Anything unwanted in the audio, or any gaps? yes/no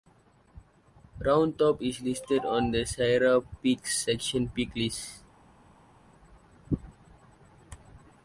no